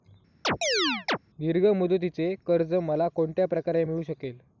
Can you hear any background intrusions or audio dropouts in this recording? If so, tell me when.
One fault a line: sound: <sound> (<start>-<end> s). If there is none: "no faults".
sound: chirp (0.4-1.2 s)